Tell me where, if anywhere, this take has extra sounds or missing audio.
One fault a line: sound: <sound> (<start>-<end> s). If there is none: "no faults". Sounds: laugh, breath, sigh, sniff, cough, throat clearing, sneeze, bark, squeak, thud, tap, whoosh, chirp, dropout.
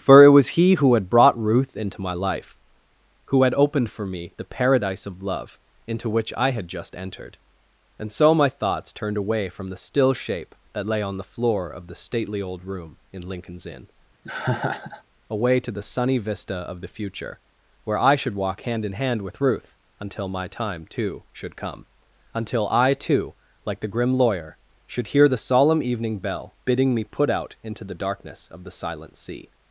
sound: laugh (14.2-15.0 s)